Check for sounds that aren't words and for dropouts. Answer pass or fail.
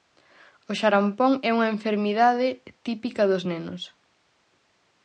pass